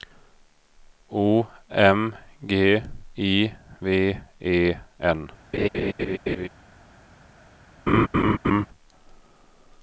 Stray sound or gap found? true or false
true